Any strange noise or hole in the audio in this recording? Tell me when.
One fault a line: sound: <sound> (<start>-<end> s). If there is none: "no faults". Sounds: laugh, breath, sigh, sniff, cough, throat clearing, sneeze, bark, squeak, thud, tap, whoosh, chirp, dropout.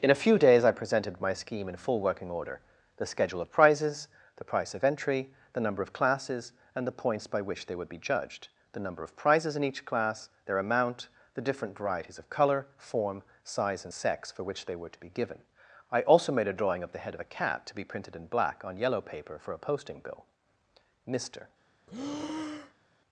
sound: breath (21.9-22.9 s)